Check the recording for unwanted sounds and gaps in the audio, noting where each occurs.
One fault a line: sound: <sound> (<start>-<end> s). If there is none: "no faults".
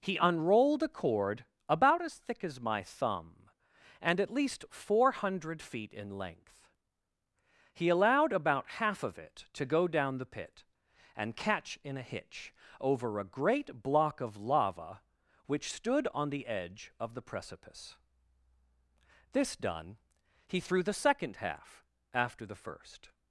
no faults